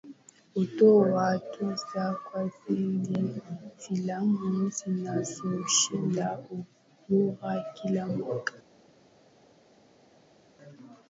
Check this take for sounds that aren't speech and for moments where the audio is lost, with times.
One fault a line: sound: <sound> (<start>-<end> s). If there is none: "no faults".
no faults